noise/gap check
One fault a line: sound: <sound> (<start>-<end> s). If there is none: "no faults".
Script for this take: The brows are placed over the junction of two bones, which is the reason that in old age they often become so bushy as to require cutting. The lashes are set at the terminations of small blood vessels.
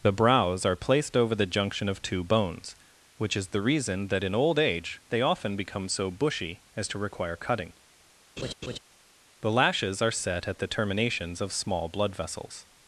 sound: laugh (8.4-8.8 s)